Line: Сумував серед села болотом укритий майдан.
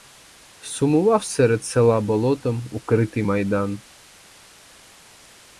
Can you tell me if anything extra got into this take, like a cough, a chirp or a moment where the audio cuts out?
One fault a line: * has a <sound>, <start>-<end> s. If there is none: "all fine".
all fine